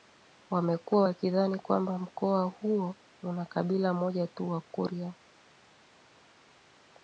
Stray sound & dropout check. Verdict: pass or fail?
pass